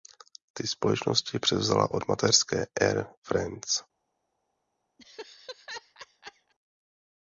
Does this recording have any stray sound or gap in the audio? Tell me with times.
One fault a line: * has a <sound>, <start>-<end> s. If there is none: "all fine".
* has a laugh, 5.0-6.5 s